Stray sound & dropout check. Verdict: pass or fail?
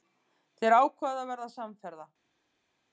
pass